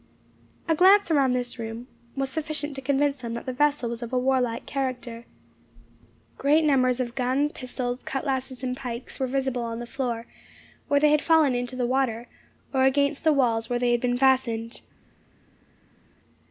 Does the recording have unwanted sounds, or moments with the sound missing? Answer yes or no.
no